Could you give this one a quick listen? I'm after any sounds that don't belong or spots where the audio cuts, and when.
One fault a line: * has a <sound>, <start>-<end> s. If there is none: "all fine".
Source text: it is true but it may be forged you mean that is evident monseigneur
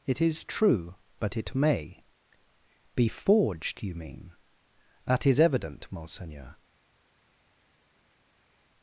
all fine